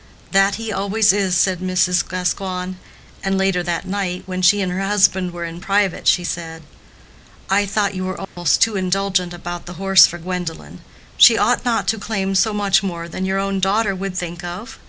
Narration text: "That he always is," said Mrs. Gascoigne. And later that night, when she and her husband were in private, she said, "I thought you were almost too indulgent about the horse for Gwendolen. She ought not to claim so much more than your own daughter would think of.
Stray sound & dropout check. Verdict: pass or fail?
fail